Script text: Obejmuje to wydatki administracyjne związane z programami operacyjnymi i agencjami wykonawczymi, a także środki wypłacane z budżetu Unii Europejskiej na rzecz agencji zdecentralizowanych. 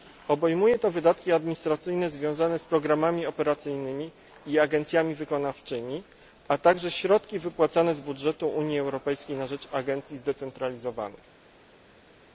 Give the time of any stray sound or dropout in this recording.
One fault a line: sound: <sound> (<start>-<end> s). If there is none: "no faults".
no faults